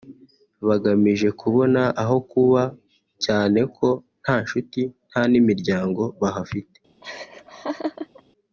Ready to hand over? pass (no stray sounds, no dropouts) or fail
fail